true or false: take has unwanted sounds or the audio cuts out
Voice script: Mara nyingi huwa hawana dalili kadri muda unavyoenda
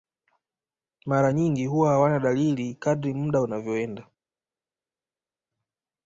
false